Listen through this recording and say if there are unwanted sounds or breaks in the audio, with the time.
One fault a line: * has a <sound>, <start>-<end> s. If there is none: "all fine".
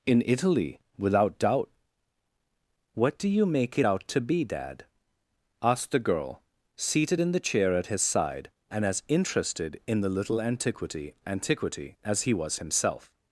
all fine